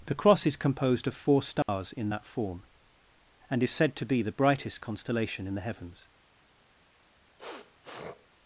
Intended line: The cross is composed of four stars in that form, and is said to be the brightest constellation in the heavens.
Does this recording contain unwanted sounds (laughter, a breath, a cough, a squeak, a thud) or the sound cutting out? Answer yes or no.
yes